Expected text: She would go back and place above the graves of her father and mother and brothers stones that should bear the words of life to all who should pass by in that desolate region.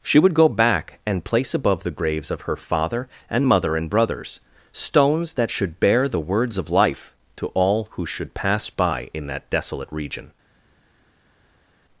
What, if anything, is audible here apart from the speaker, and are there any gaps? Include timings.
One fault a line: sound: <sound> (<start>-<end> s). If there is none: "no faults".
no faults